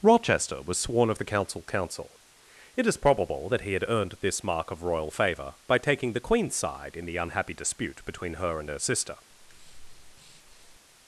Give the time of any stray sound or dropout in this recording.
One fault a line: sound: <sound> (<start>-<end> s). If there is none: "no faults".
sound: breath (9.3-10.8 s)